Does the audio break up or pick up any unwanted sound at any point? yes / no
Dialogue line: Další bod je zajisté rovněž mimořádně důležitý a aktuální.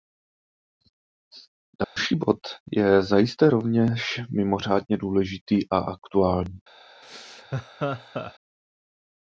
yes